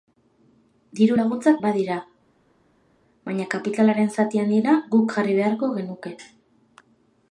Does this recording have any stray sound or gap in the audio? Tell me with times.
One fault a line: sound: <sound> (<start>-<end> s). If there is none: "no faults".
no faults